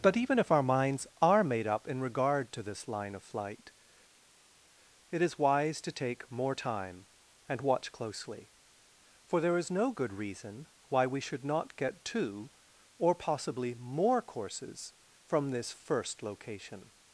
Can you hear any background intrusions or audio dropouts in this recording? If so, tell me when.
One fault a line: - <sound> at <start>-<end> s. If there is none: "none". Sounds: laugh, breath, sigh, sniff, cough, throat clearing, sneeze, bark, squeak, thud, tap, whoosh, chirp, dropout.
none